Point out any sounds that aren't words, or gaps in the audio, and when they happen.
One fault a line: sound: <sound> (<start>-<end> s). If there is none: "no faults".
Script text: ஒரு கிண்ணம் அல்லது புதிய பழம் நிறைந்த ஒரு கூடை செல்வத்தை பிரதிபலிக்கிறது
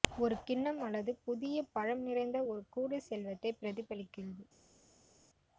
no faults